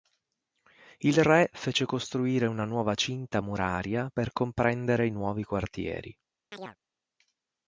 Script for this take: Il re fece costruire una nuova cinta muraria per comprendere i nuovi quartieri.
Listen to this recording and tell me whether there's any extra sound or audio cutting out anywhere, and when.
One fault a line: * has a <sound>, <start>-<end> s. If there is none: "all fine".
* has a chirp, 6.5-6.8 s